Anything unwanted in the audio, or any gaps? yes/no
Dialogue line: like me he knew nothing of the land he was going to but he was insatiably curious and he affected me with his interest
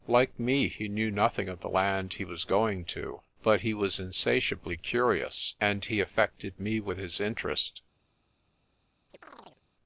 yes